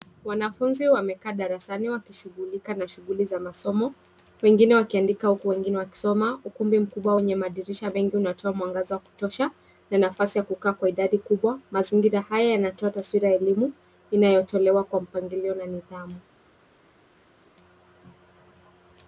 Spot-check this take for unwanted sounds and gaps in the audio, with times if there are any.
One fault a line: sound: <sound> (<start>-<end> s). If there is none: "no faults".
no faults